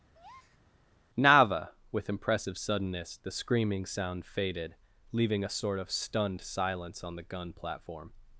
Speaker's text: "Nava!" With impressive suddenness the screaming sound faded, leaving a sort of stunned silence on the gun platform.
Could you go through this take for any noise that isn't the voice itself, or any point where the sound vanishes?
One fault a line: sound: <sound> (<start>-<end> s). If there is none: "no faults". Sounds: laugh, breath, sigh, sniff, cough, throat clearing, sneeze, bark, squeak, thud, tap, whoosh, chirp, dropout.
sound: breath (0.1-0.6 s)